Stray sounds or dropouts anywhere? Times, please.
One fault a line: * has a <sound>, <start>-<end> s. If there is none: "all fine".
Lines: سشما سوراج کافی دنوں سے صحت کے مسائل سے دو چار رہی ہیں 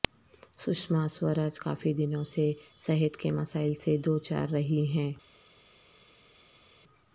all fine